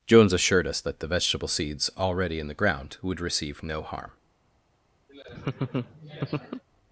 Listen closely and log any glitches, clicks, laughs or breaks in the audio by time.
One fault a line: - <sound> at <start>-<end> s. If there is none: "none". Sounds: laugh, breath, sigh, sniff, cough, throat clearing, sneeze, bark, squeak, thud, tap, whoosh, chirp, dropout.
- laugh at 5.1-6.6 s